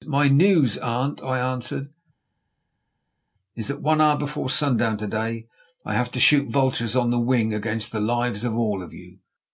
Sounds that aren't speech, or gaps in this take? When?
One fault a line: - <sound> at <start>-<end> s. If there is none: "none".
none